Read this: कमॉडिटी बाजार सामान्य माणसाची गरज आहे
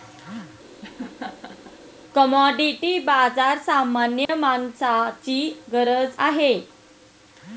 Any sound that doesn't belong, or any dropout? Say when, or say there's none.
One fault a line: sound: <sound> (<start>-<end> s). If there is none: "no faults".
sound: laugh (0.8-1.8 s)
sound: dropout (4.3-4.3 s)